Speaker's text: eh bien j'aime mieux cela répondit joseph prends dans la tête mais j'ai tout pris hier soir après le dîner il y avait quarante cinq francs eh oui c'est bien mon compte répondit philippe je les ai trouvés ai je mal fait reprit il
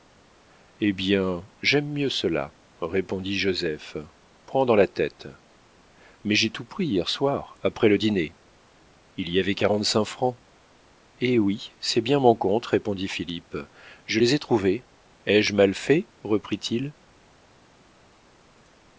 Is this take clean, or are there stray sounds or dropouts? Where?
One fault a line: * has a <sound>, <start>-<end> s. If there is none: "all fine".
all fine